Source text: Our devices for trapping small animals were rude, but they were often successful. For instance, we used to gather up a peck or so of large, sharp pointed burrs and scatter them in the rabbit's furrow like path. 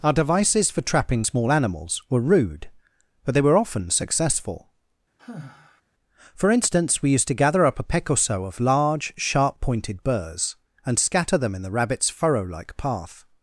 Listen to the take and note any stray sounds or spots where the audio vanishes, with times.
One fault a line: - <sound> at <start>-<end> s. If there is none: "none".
- sigh at 5.2-5.8 s